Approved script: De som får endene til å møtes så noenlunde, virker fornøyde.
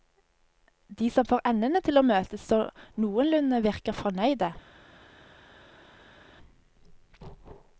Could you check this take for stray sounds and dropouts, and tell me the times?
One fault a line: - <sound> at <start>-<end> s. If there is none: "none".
none